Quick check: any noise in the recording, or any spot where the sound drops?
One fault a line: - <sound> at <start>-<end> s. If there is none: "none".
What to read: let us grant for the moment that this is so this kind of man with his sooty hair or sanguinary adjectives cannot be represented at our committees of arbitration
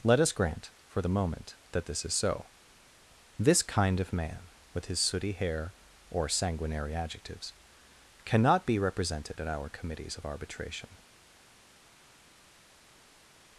none